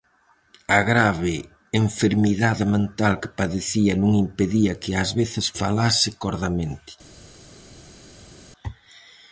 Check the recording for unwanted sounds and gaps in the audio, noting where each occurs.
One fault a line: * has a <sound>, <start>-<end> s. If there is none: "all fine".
all fine